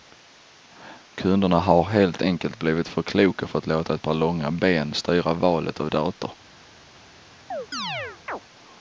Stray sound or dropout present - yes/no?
yes